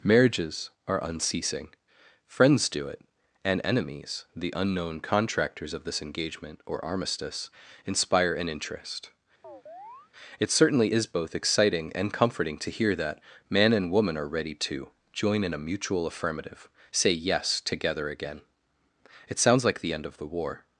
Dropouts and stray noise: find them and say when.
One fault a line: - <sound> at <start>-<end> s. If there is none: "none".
- chirp at 9.4-10.1 s